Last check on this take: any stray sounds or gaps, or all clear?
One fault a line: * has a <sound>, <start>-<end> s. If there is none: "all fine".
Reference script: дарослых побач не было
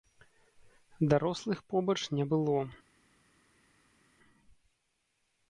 all fine